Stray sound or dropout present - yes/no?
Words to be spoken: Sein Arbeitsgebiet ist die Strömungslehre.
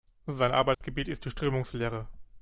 yes